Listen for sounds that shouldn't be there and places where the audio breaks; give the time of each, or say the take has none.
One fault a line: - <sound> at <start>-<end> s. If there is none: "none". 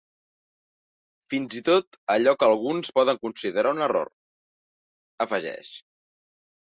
none